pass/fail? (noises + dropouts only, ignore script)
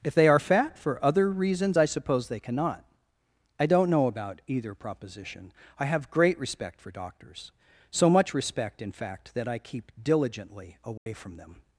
fail